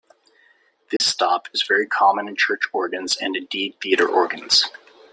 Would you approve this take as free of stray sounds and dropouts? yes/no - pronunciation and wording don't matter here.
no